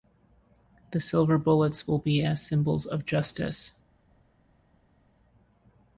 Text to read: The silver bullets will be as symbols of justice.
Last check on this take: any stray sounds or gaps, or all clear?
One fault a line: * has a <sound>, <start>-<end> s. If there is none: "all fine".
all fine